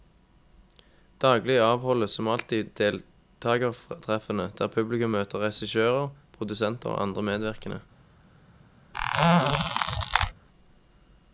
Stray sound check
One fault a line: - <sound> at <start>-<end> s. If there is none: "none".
- squeak at 8.9-10.3 s